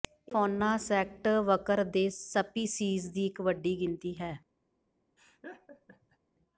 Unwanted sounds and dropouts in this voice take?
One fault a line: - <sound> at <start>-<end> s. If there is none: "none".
- laugh at 5.2-6.2 s